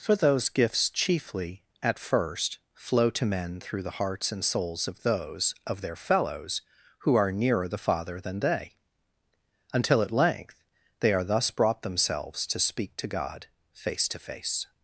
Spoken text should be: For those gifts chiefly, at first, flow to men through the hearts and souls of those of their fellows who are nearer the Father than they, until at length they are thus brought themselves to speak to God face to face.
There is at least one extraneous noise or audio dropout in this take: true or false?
false